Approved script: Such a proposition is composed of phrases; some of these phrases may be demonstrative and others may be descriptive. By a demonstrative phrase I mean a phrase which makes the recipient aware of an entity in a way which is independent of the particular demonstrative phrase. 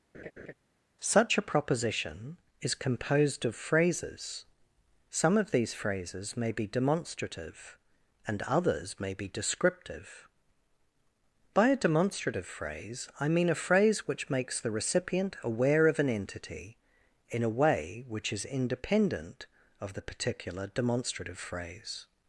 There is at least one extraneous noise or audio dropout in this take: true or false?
true